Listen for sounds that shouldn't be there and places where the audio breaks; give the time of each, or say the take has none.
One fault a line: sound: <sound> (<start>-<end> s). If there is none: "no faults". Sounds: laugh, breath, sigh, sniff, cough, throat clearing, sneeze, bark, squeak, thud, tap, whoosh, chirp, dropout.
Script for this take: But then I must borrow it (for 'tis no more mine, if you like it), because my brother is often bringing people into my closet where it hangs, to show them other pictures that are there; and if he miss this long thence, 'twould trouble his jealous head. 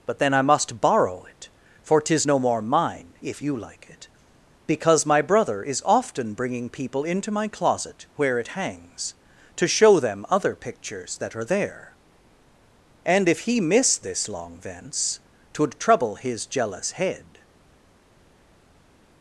no faults